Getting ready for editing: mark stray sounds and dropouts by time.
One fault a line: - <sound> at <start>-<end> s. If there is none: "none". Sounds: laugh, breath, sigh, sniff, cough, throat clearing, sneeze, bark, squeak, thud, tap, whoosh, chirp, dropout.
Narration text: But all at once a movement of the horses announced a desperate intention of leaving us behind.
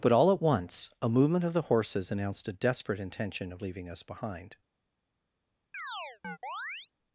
- chirp at 5.7-6.9 s